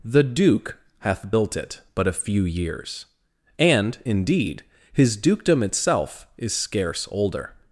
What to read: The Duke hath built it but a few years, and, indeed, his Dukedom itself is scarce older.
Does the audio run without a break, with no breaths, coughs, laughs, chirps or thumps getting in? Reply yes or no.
yes